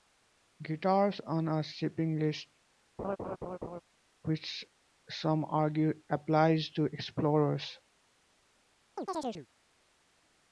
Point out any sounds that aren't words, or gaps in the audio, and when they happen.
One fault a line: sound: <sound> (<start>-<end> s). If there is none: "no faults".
sound: laugh (3.0-3.8 s)
sound: chirp (9.0-9.5 s)